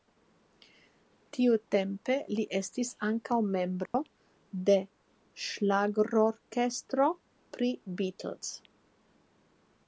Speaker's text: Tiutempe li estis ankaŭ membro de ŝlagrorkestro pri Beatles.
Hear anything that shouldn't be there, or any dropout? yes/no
yes